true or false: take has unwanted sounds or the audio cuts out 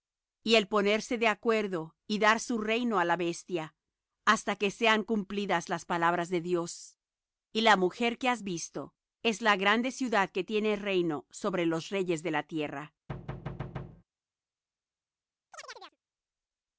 true